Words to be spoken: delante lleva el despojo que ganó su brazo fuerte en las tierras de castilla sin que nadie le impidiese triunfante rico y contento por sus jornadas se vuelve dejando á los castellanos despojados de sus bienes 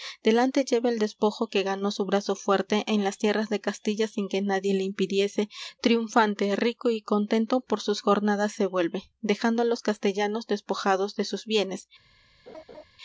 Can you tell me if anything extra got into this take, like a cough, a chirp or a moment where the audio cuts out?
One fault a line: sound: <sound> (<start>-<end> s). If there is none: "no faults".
sound: laugh (12.5-12.8 s)